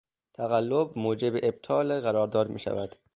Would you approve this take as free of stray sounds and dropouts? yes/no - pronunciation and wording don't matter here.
yes